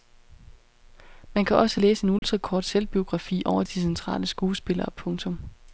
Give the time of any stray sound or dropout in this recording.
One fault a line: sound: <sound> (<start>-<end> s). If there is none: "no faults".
sound: dropout (2.2-2.2 s)